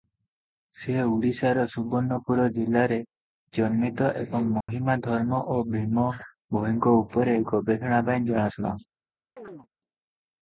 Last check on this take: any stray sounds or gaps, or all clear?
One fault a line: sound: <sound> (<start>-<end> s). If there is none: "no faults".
sound: dropout (4.6-4.7 s)
sound: chirp (9.4-9.7 s)